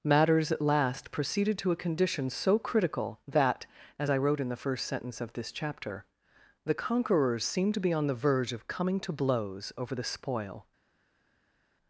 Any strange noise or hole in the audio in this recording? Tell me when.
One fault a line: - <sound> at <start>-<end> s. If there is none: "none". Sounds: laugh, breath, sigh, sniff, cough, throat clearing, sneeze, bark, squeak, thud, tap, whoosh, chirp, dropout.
none